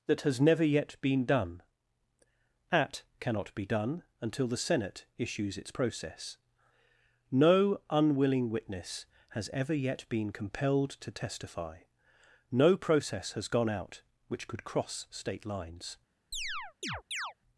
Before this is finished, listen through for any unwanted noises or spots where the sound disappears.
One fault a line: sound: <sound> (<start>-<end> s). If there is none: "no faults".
sound: chirp (16.3-17.3 s)